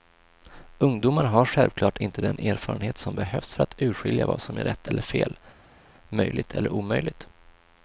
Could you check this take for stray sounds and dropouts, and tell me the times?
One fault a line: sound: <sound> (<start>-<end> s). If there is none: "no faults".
no faults